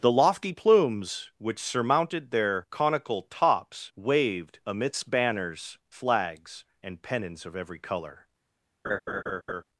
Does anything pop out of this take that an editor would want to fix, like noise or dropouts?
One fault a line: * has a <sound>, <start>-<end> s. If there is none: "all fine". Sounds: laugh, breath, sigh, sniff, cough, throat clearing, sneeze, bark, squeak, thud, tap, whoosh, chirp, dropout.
* has a laugh, 8.8-9.6 s